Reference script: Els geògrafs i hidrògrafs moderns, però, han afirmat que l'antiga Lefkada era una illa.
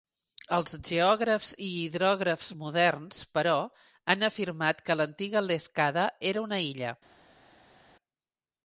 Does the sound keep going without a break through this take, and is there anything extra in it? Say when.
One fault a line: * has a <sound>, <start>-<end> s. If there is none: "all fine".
all fine